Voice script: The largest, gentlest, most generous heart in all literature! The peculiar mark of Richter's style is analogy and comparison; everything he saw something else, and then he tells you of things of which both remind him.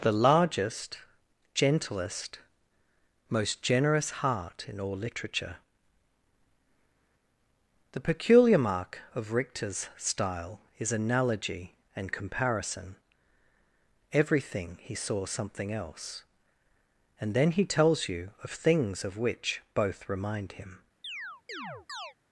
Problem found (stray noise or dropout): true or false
true